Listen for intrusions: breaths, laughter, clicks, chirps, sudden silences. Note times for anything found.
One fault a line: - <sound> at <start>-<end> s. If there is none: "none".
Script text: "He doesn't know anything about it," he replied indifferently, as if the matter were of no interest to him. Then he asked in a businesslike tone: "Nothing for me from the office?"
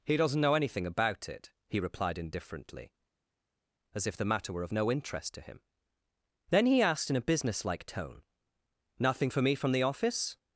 none